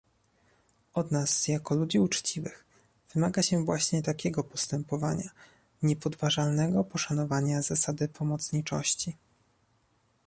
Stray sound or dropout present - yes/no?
no